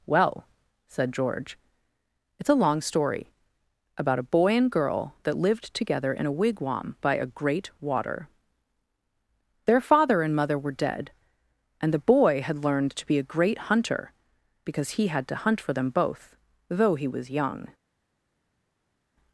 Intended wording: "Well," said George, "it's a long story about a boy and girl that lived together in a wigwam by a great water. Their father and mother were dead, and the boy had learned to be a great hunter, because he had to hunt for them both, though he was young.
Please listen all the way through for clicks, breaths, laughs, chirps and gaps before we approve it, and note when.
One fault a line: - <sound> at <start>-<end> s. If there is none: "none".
none